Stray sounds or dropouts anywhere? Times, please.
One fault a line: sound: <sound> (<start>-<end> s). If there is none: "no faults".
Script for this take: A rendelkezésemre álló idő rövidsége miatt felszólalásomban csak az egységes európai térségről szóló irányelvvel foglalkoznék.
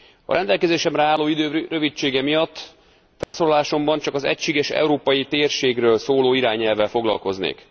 sound: dropout (3.2-3.3 s)